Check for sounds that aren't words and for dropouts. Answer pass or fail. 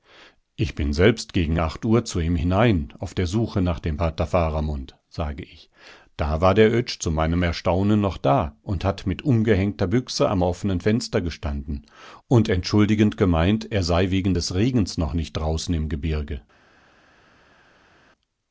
pass